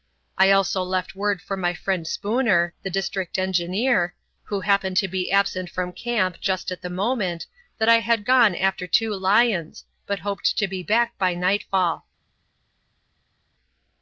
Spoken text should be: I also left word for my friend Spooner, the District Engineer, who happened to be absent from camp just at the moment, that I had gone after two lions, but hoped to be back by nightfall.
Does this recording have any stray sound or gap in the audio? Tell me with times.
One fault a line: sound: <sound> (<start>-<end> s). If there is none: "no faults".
no faults